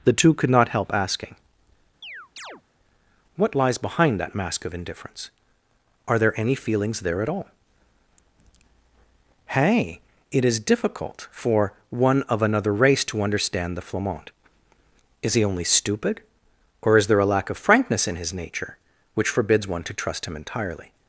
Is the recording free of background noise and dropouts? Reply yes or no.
no